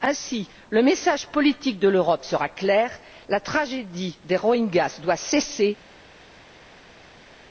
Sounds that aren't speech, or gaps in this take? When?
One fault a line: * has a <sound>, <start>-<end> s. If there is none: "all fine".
all fine